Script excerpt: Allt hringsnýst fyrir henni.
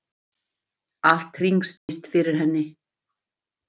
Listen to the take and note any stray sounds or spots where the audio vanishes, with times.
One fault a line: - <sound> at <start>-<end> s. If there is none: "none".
- dropout at 1.8-1.9 s